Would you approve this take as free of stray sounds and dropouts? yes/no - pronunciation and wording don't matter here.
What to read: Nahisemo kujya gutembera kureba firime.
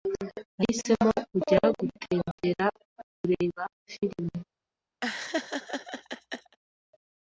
no